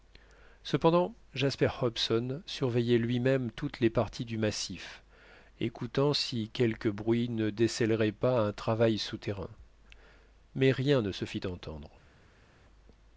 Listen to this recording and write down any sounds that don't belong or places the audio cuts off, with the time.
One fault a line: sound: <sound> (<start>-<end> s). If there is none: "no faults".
no faults